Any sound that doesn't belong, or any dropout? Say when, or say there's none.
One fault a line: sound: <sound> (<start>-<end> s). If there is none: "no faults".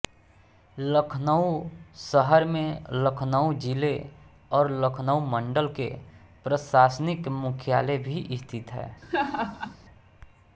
sound: laugh (9.0-9.8 s)